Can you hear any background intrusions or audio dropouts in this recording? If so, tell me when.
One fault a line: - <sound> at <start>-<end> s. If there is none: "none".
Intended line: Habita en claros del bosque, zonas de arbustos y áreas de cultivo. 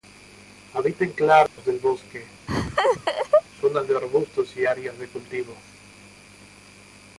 - dropout at 1.5-1.6 s
- laugh at 2.5-3.4 s